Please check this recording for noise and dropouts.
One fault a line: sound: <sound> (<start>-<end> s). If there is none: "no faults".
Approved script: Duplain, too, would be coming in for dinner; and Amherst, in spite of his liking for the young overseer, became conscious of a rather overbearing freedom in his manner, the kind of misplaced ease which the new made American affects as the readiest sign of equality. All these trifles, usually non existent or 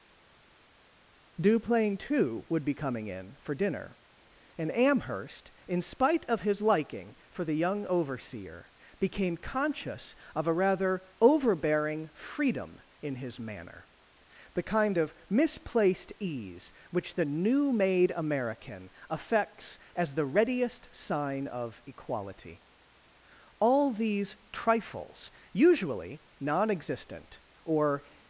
no faults